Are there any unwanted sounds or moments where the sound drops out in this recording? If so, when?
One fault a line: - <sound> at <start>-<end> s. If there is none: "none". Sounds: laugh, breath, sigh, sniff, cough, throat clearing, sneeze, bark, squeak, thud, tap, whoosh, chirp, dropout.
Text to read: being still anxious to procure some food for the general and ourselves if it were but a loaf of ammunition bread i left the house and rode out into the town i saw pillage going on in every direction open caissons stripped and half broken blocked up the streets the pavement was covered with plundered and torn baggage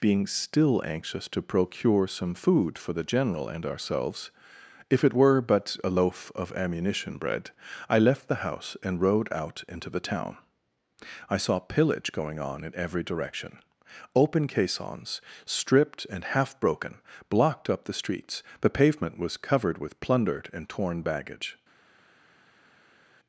none